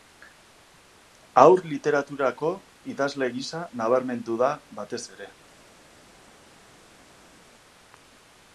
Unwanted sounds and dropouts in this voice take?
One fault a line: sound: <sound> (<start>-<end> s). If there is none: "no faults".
no faults